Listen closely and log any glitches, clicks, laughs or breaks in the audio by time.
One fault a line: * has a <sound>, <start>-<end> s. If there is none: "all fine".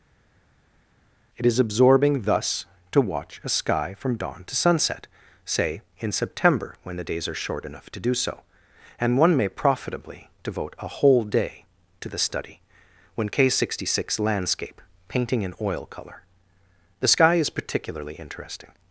all fine